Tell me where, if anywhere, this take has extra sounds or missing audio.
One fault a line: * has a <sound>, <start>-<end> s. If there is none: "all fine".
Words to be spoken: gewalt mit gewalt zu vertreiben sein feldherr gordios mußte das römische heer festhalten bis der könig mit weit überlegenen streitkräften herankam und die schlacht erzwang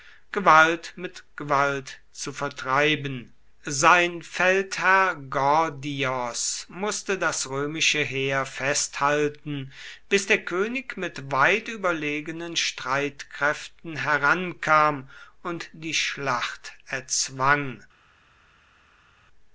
all fine